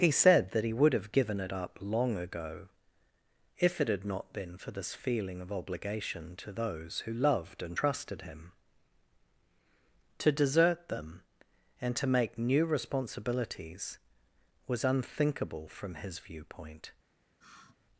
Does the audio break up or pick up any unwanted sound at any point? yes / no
yes